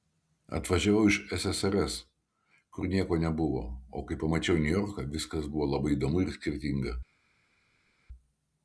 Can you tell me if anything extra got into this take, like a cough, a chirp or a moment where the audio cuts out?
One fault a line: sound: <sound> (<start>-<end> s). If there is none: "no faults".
no faults